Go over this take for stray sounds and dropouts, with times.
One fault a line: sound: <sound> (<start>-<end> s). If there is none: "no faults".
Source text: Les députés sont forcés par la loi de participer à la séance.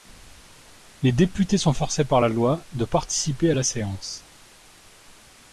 no faults